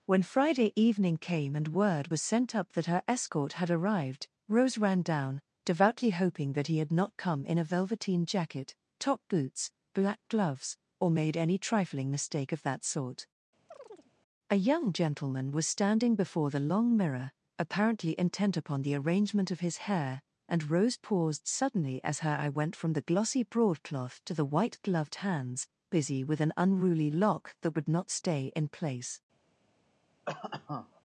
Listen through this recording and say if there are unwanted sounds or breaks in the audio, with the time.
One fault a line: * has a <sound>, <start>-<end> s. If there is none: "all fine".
* has a chirp, 13.7-14.1 s
* has a cough, 30.2-31.0 s